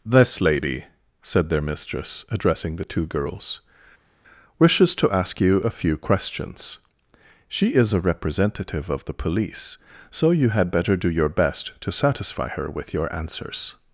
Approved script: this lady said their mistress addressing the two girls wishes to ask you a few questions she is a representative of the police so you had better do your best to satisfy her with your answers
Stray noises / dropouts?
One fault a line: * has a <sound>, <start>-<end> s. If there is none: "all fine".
all fine